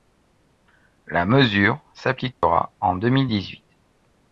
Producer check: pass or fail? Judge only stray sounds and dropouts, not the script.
fail